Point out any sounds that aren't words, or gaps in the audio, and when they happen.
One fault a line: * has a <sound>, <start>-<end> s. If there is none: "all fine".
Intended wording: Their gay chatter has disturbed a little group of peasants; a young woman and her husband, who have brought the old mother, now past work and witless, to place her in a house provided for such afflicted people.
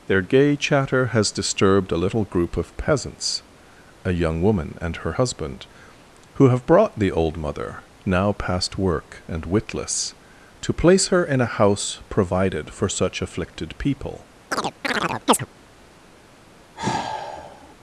* has a chirp, 14.5-15.5 s
* has a sigh, 16.7-17.7 s